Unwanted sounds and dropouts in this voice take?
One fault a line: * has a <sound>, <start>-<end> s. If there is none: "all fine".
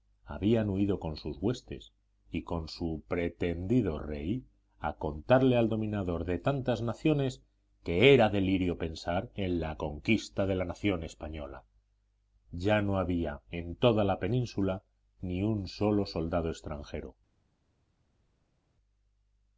all fine